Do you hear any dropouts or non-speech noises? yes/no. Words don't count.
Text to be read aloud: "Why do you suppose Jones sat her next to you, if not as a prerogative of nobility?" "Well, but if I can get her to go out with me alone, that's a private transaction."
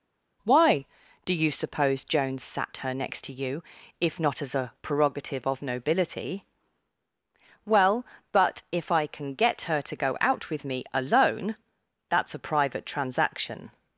no